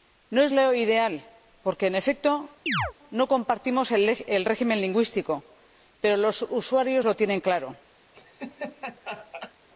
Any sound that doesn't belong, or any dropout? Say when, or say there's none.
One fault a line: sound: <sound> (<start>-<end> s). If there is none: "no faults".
sound: chirp (2.7-2.9 s)
sound: laugh (8.1-9.5 s)